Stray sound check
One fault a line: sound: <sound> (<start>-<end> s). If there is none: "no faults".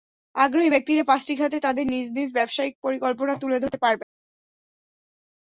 no faults